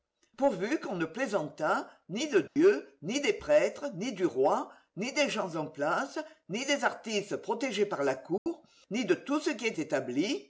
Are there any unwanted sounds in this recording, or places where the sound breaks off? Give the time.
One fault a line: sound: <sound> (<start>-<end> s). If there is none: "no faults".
sound: dropout (2.5-2.6 s)
sound: dropout (8.4-8.5 s)